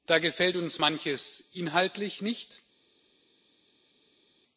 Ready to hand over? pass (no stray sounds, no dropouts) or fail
pass